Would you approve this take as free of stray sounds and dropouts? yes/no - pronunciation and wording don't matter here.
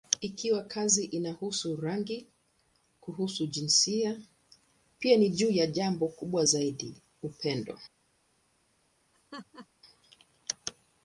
no